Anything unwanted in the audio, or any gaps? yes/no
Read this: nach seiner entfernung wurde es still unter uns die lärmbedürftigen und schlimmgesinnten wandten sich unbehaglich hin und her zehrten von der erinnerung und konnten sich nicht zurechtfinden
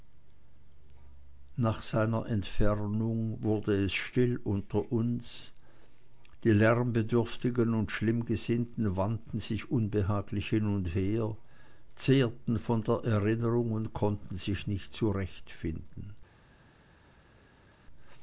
no